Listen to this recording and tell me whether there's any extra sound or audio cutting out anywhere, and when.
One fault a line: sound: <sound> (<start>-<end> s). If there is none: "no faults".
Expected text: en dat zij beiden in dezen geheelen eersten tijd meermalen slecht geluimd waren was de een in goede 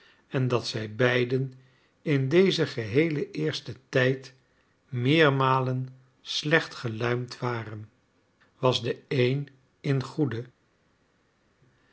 no faults